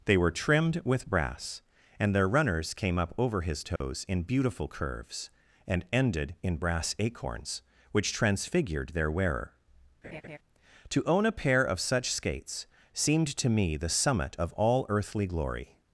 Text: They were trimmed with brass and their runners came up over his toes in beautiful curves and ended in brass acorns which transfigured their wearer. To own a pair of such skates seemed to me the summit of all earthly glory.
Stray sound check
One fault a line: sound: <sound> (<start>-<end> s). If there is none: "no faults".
sound: dropout (3.8-3.8 s)
sound: laugh (10.0-10.4 s)